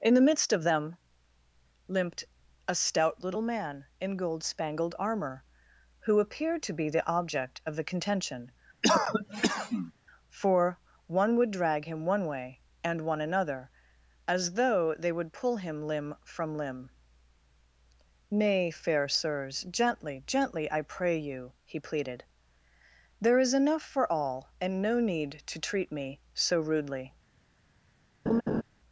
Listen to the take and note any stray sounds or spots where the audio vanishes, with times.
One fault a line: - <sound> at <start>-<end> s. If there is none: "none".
- cough at 8.8-9.9 s
- laugh at 28.3-28.6 s